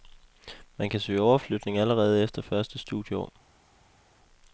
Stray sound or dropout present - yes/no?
no